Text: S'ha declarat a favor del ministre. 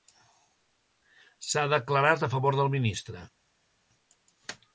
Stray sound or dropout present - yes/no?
no